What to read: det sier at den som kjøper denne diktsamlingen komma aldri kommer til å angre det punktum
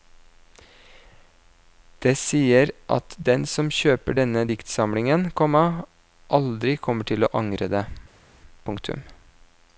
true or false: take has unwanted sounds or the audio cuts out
false